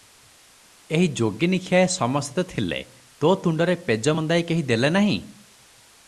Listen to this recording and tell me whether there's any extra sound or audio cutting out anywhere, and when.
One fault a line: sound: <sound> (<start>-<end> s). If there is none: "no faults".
no faults